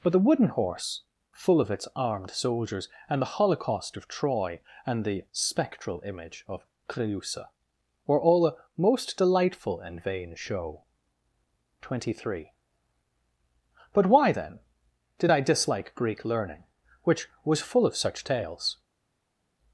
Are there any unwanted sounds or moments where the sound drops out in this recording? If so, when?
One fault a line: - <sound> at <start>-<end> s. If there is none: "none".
none